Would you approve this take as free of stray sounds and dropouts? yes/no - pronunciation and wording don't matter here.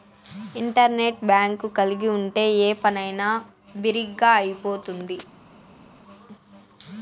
yes